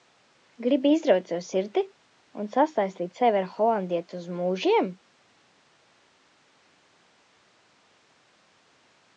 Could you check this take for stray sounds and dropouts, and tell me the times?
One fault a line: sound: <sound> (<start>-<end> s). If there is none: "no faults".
no faults